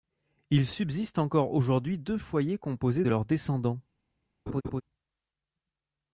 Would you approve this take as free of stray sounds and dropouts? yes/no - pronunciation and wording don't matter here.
no